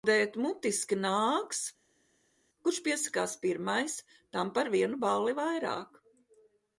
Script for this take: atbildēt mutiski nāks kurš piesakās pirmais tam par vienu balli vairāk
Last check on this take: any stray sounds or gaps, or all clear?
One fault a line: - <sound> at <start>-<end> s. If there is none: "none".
none